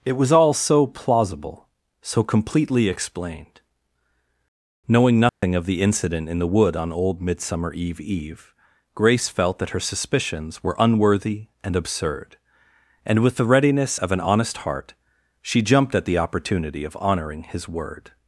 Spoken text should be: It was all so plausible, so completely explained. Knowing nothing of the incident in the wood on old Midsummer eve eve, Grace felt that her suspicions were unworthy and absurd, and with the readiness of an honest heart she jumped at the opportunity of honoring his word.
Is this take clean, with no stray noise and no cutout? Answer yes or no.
no